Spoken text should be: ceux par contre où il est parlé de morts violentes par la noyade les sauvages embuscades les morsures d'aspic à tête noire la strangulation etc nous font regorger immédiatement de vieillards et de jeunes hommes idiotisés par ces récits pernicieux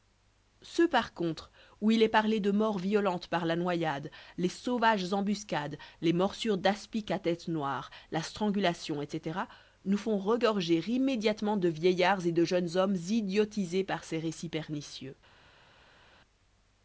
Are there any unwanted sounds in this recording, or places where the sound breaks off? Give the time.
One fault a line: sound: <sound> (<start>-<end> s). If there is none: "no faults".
no faults